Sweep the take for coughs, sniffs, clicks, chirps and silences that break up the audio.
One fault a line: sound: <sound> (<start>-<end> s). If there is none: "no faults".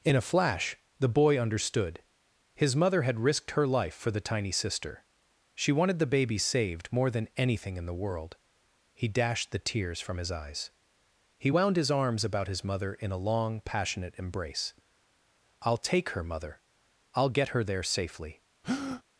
sound: breath (18.6-19.0 s)